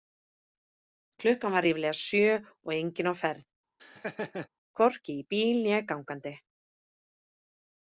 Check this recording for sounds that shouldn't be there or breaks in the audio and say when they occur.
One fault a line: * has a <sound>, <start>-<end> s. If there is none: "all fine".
* has a laugh, 3.8-4.5 s